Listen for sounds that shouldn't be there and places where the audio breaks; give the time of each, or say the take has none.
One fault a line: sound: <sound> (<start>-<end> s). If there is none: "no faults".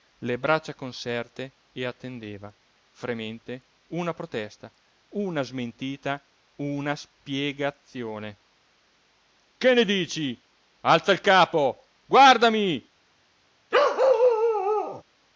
sound: bark (13.7-15.0 s)